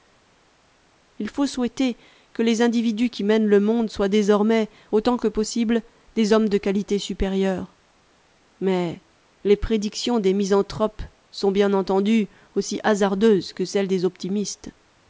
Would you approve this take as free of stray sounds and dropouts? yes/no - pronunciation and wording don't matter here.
yes